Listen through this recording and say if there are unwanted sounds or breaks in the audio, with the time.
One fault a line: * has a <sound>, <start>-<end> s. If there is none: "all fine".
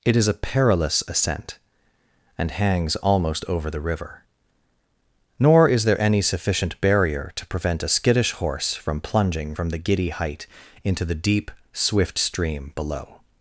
all fine